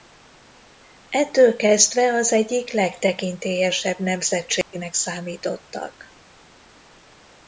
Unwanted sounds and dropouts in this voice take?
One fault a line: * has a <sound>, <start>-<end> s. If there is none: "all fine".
* has a dropout, 4.6-4.7 s